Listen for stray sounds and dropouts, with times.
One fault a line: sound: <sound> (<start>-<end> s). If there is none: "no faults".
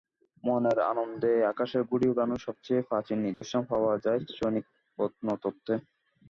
sound: dropout (3.3-3.4 s)